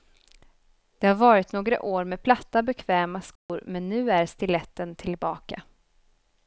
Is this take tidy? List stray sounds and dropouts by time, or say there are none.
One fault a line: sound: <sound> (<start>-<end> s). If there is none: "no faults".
sound: dropout (3.4-3.5 s)